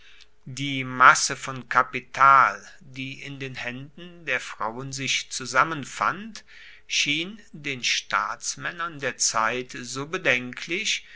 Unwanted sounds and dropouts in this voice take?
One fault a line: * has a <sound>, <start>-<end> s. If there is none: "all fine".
all fine